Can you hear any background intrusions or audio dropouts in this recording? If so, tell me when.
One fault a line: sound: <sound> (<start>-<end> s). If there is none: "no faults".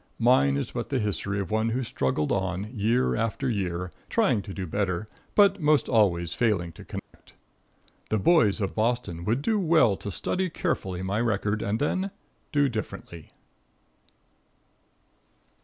sound: dropout (7.0-7.1 s)